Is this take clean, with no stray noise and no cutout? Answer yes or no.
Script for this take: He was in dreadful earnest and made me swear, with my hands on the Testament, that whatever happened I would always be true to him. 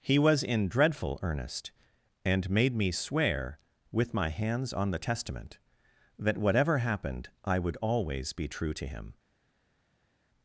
yes